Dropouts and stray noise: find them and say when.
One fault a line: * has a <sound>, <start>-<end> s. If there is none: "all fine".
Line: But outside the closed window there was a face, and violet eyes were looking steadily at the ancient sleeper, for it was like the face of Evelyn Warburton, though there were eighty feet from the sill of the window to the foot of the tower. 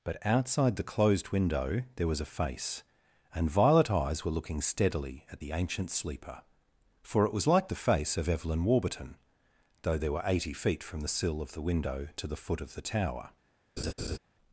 * has a laugh, 13.8-14.2 s